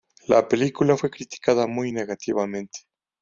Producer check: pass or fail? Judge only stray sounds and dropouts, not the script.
pass